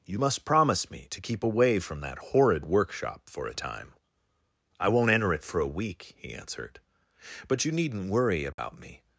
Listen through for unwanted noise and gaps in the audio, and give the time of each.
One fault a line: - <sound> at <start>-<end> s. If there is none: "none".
- dropout at 8.5-8.6 s